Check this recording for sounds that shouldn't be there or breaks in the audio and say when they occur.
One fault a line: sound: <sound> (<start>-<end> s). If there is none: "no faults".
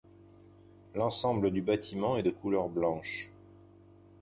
no faults